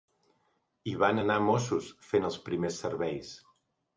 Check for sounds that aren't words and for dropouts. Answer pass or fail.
pass